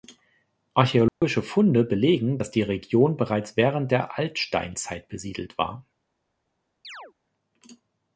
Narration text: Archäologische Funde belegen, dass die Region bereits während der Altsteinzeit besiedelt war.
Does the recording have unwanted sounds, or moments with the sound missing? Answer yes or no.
yes